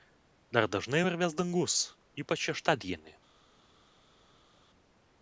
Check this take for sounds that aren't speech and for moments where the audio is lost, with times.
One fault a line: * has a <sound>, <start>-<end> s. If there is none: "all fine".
all fine